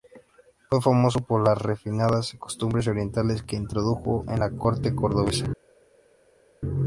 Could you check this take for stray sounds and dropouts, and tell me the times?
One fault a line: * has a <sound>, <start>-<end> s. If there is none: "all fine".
all fine